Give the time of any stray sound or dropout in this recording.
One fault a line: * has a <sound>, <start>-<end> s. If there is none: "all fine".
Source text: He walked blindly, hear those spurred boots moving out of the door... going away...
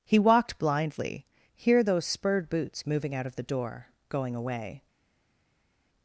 all fine